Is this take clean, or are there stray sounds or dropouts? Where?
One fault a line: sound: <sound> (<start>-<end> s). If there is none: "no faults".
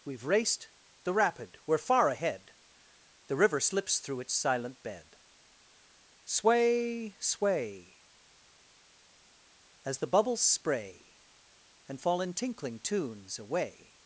no faults